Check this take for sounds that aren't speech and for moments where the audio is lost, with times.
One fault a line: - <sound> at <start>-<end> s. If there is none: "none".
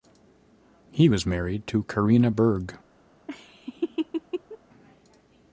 - laugh at 3.3-4.6 s